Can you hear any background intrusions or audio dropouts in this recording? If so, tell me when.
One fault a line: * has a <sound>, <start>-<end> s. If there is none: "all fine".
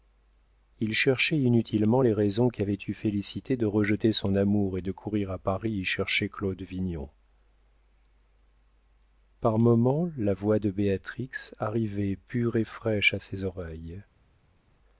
all fine